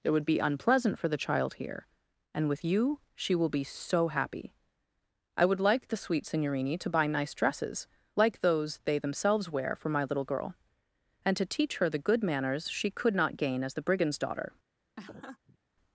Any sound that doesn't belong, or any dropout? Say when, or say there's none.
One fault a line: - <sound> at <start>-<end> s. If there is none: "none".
- laugh at 15.0-15.6 s